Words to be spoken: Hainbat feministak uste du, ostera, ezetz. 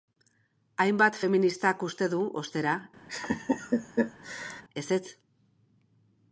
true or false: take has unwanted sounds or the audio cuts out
true